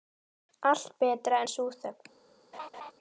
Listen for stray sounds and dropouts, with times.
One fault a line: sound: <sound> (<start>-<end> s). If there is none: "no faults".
sound: laugh (2.5-2.9 s)